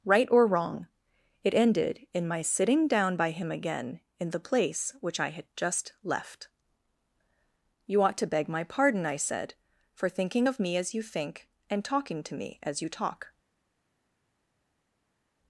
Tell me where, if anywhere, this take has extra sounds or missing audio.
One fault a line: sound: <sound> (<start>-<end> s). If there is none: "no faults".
no faults